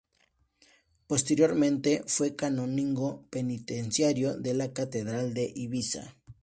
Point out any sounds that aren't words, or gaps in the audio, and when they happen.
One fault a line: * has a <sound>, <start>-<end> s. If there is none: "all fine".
all fine